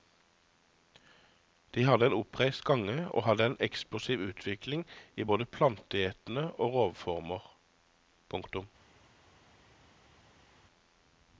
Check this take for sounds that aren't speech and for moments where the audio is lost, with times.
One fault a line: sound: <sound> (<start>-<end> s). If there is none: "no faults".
no faults